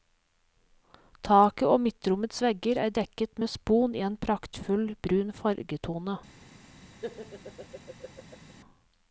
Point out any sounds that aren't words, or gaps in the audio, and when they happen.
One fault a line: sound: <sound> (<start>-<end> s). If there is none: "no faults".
sound: laugh (7.0-8.5 s)